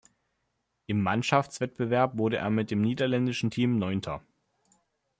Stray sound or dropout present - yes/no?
no